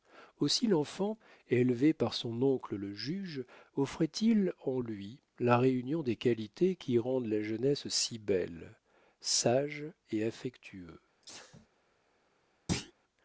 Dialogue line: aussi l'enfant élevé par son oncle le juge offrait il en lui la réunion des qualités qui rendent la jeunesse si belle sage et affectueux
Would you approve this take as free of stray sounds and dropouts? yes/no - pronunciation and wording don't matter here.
no